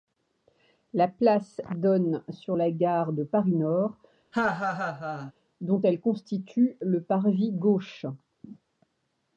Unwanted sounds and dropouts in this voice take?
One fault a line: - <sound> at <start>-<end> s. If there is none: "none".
- laugh at 4.3-5.3 s